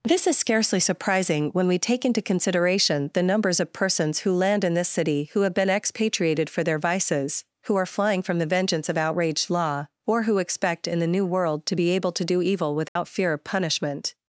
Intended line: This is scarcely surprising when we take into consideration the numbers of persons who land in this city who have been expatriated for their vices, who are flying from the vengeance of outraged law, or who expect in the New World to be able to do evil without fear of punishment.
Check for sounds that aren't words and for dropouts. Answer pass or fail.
fail